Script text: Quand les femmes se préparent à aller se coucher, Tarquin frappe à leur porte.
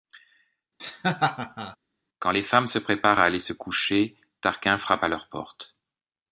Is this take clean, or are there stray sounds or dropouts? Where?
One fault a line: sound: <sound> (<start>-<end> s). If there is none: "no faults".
sound: laugh (0.8-1.8 s)